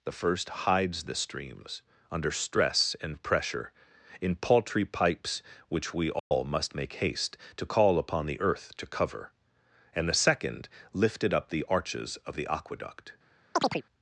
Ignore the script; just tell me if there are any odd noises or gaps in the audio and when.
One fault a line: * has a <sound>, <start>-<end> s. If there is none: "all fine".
* has a dropout, 6.2-6.3 s
* has a chirp, 13.5-13.8 s